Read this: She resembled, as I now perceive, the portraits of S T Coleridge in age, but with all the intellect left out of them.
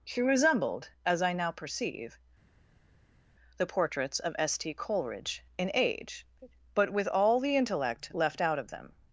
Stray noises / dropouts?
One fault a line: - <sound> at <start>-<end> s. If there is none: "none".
none